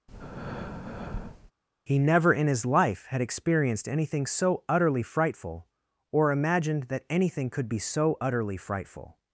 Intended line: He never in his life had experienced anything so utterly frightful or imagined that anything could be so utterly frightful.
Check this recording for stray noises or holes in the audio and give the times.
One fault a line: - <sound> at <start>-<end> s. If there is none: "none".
- breath at 0.1-1.5 s